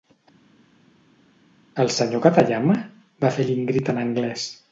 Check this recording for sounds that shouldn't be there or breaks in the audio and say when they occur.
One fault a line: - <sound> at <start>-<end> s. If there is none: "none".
none